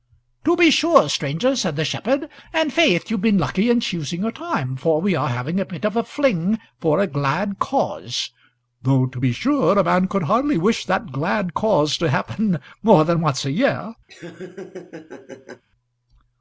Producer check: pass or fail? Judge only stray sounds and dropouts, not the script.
fail